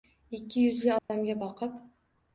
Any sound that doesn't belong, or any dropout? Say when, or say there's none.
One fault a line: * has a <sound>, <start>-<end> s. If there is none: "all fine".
* has a dropout, 1.0-1.1 s